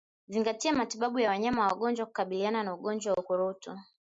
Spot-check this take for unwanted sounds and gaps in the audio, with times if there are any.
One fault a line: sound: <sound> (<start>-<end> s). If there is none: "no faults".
no faults